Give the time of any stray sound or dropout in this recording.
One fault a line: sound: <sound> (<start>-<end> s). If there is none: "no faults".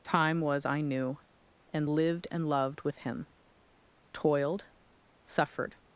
no faults